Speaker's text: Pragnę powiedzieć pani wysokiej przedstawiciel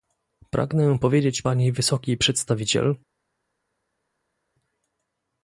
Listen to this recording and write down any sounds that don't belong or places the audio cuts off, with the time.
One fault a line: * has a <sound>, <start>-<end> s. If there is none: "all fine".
all fine